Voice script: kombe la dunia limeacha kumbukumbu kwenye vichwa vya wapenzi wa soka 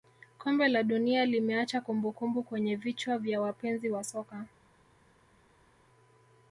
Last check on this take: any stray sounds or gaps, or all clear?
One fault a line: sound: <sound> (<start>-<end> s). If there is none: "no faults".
no faults